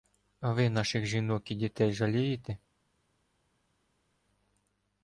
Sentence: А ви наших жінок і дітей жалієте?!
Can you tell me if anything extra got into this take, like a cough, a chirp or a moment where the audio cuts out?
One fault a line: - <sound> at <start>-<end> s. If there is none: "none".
none